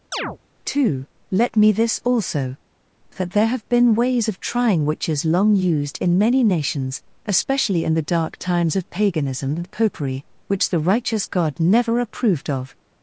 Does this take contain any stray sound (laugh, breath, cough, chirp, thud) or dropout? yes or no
yes